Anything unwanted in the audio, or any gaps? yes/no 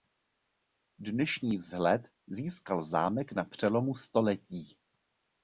no